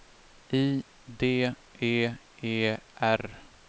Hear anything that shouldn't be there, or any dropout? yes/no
no